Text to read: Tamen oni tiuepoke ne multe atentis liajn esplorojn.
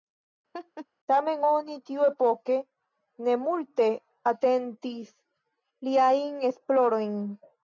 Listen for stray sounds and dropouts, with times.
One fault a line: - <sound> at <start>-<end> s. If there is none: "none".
- laugh at 0.5-0.9 s